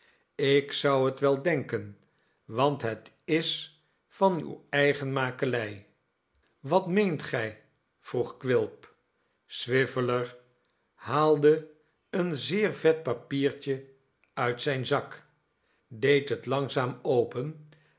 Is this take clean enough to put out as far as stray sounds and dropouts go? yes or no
yes